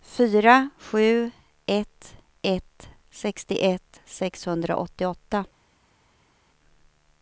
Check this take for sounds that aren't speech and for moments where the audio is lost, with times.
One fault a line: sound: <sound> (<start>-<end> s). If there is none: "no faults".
no faults